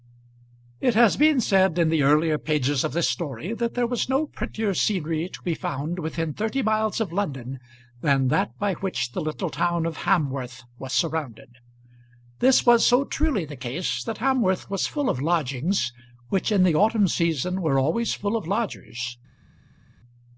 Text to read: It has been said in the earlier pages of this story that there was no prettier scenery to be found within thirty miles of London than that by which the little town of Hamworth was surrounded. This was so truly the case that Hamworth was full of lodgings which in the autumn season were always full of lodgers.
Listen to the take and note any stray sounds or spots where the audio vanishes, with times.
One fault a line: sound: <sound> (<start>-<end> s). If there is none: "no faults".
no faults